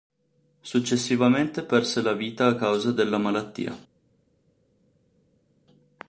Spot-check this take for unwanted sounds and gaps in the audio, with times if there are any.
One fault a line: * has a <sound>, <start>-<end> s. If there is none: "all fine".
all fine